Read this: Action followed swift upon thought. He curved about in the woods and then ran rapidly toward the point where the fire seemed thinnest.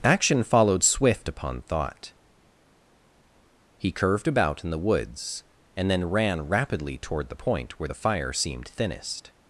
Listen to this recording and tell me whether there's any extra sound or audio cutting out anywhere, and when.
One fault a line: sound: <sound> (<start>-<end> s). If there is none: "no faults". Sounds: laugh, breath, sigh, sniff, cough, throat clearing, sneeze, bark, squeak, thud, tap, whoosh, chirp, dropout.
no faults